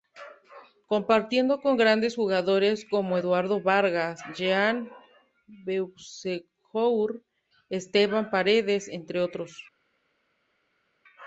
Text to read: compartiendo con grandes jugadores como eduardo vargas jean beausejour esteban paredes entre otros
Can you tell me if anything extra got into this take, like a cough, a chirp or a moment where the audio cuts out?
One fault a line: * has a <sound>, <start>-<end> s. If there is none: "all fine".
all fine